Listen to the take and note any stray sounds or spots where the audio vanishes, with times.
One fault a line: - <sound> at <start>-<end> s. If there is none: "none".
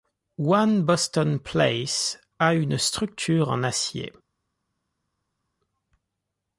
none